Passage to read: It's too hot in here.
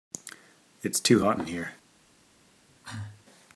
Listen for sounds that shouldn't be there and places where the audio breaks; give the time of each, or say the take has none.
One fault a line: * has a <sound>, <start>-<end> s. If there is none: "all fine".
* has a cough, 2.7-3.3 s